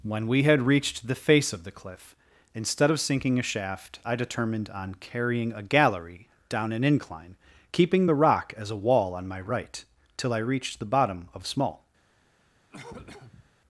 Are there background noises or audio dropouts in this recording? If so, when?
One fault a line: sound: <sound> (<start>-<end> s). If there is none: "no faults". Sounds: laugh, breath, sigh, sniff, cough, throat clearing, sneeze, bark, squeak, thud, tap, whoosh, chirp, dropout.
sound: cough (12.7-13.5 s)